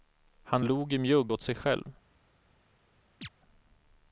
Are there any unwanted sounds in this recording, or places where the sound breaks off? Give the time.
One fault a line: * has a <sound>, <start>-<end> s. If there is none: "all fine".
* has a chirp, 3.2-3.3 s